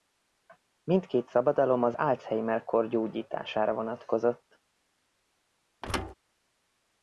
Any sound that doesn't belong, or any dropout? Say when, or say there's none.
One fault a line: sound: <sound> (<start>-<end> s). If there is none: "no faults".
sound: thud (5.8-6.1 s)